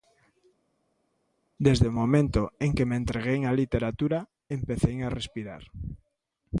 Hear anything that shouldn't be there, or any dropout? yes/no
no